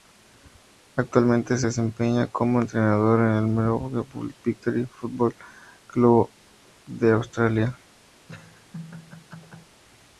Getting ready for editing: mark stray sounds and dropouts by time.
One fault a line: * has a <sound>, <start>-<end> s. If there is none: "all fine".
* has a laugh, 8.2-9.8 s